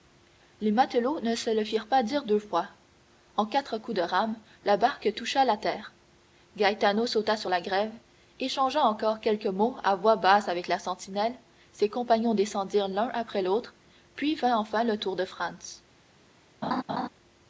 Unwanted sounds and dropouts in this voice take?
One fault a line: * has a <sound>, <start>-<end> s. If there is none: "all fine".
* has a laugh, 16.6-17.1 s